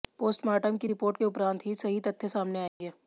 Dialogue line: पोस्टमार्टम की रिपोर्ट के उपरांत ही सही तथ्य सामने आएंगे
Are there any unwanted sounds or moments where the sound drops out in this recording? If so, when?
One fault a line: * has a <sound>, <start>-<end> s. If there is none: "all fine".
* has a dropout, 2.7-2.8 s